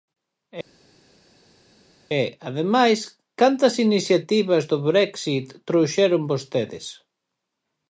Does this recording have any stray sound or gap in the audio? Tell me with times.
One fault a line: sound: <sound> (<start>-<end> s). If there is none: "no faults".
no faults